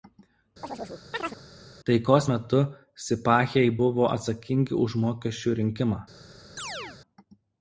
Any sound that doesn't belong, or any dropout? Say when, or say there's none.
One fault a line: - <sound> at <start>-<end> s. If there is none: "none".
- chirp at 0.6-1.4 s
- chirp at 6.6-7.0 s